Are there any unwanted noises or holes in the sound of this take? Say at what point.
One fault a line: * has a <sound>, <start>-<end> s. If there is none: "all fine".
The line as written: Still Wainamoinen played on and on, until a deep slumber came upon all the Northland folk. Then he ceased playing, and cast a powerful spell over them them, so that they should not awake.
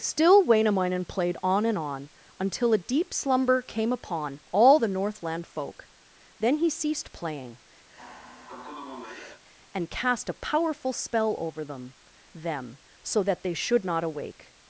* has a sigh, 7.9-9.4 s